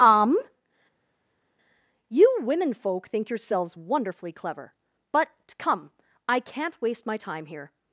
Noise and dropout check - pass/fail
pass